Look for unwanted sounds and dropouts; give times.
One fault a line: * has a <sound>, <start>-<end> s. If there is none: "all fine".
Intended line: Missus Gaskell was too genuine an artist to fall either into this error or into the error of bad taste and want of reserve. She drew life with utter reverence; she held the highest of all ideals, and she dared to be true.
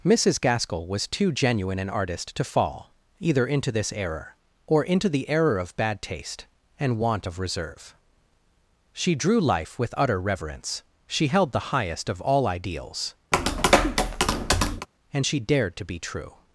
* has a tap, 13.3-14.9 s